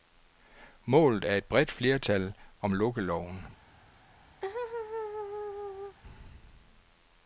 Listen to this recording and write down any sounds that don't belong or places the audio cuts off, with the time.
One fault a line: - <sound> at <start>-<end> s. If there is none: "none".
- laugh at 4.4-6.0 s